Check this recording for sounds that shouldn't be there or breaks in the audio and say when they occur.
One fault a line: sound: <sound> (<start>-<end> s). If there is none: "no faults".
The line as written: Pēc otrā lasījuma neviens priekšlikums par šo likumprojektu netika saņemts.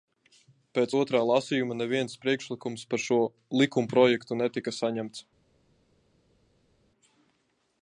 no faults